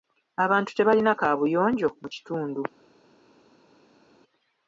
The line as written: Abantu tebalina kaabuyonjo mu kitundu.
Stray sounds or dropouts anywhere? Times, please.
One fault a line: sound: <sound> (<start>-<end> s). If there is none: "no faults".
no faults